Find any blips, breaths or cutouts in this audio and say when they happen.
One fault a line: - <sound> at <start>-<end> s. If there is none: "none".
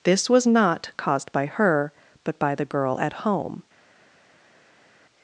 none